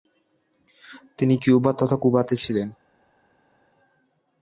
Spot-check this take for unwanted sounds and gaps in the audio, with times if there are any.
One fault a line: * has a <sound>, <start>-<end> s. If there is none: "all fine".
all fine